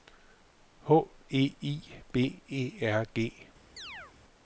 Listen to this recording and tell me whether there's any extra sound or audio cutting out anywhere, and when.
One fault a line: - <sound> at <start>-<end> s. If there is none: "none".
- chirp at 3.8-4.1 s